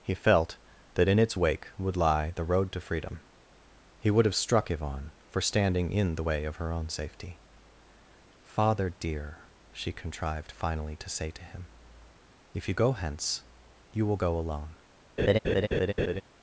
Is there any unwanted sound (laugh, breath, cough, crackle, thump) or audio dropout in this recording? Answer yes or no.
yes